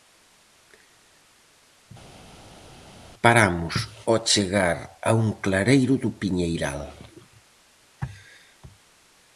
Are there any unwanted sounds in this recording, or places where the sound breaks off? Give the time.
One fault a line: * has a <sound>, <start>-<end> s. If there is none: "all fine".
all fine